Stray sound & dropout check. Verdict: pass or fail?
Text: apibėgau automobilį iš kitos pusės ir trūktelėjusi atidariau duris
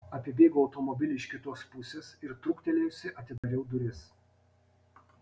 fail